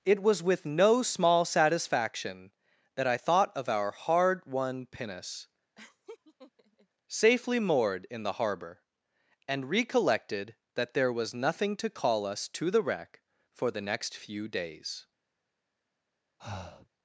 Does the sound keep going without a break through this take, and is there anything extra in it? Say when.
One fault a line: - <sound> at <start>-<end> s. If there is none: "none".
- laugh at 5.8-6.9 s
- breath at 16.4-16.9 s